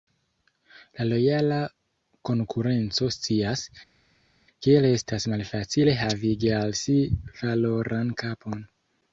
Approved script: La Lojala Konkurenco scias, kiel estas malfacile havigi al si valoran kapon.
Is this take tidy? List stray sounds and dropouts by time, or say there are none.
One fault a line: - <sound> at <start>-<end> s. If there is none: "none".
none